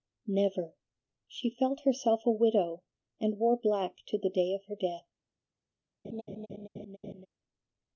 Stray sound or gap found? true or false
true